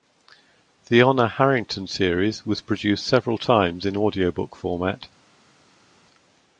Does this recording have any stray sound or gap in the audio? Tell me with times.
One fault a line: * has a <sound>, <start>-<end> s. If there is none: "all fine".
all fine